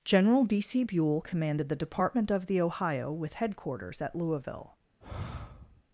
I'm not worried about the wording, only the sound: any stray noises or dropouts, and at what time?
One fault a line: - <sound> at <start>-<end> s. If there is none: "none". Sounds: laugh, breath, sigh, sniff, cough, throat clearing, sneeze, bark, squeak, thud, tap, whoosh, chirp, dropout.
- sigh at 5.0-5.8 s